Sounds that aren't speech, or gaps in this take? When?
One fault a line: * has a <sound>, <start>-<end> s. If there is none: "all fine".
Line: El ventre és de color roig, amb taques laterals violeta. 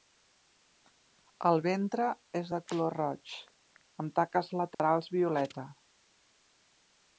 * has a dropout, 4.7-4.8 s